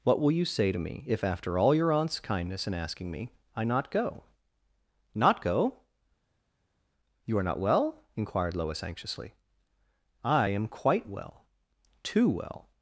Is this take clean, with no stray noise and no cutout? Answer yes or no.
yes